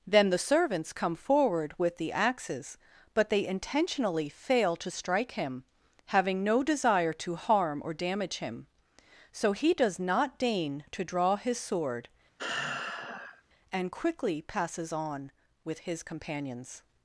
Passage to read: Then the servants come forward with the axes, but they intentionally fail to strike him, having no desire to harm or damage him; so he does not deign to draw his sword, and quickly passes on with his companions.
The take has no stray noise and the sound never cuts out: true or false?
false